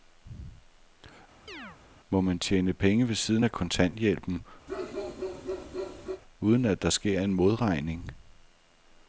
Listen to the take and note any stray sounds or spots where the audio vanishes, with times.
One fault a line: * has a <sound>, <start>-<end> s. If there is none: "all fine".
* has a chirp, 1.5-1.8 s
* has a bark, 4.7-6.2 s